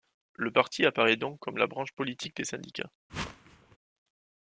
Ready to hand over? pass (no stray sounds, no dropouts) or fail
fail